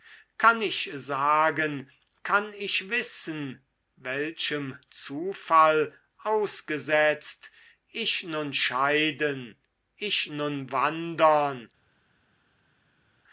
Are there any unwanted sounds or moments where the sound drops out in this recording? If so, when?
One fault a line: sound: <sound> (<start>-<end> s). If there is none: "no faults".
no faults